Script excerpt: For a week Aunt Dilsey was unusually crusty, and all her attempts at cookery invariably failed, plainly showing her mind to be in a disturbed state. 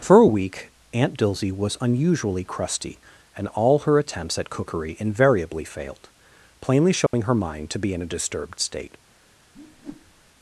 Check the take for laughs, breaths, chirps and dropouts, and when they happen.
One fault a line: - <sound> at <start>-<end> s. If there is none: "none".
- dropout at 7.1-7.1 s
- whoosh at 9.5-10.3 s